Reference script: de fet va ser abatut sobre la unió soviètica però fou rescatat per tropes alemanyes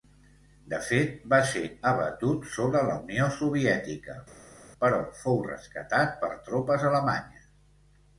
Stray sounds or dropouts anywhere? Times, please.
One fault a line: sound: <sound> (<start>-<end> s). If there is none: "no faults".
no faults